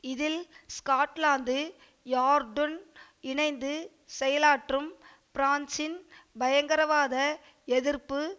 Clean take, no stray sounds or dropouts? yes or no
yes